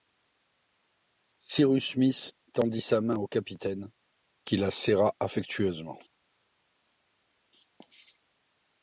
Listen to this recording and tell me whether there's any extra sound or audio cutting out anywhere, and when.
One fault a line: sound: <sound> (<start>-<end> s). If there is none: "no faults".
no faults